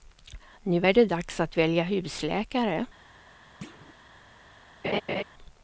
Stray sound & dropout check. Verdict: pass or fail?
fail